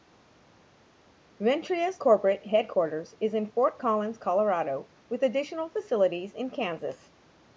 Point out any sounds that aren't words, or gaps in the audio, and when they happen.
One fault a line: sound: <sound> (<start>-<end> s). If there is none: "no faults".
no faults